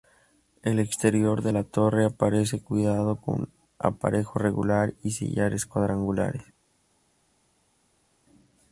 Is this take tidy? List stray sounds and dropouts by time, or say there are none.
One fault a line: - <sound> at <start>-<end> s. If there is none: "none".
none